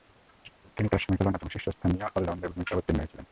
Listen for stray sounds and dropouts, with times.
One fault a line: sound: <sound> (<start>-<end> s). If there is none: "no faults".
no faults